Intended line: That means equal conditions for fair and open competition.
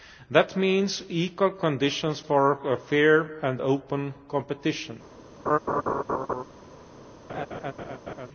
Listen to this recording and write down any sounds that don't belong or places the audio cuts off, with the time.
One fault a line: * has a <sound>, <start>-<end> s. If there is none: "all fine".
* has a laugh, 5.5-6.4 s
* has a laugh, 7.3-8.3 s